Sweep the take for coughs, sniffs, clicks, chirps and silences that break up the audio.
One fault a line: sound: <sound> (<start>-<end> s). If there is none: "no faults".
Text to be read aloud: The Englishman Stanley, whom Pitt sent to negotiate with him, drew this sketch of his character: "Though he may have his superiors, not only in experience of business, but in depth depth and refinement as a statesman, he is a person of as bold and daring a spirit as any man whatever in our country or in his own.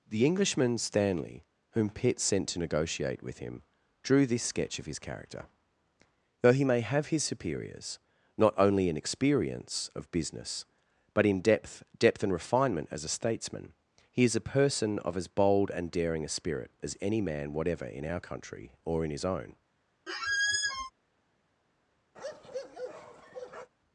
sound: squeak (20.1-20.9 s)
sound: bark (22.2-23.7 s)